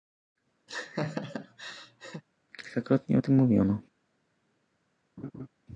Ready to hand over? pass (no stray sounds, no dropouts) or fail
fail